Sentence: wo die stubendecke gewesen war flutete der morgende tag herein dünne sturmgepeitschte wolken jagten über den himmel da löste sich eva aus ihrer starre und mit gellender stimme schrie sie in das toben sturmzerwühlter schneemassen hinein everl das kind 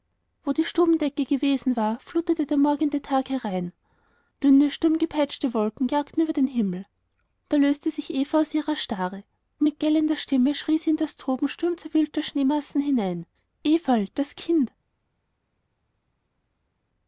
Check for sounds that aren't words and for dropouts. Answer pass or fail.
pass